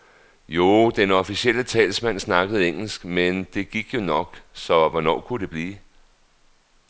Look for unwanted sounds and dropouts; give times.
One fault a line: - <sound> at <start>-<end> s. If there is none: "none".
none